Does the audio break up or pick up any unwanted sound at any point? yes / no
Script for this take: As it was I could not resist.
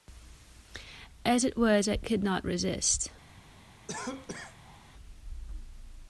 yes